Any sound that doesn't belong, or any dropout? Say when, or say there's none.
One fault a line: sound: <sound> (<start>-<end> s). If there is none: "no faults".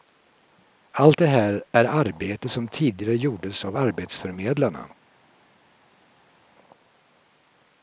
no faults